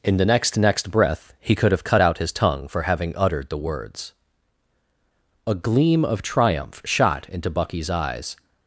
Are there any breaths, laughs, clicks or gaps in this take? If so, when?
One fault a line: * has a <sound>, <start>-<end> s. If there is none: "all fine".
all fine